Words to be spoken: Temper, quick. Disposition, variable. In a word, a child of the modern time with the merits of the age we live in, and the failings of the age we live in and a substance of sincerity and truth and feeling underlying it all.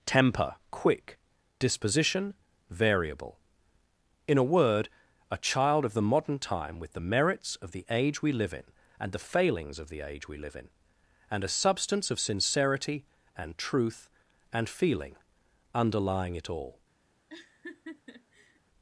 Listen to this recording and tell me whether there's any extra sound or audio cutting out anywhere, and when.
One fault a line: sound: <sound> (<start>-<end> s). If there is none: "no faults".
sound: laugh (17.3-18.6 s)